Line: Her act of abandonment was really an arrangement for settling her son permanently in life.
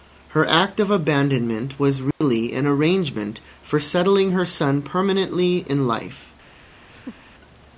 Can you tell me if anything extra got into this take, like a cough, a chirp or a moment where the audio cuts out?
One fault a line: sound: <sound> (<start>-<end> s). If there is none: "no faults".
sound: dropout (2.1-2.2 s)
sound: laugh (6.9-7.4 s)